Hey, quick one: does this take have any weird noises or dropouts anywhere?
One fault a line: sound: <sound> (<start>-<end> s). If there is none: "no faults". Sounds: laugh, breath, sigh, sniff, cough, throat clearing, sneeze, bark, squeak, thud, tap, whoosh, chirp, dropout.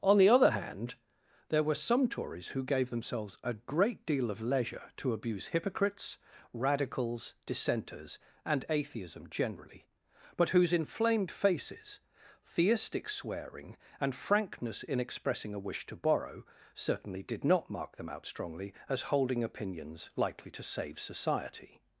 no faults